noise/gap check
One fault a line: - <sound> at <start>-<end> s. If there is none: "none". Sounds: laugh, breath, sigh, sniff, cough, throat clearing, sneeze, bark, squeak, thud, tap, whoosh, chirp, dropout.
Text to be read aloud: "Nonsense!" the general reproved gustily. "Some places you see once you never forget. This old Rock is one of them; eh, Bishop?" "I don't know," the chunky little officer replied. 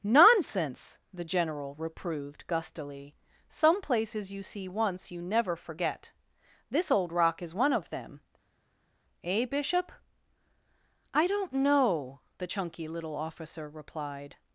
none